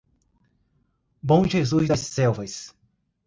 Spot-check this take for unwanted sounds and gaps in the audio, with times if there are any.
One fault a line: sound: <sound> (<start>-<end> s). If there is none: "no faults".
no faults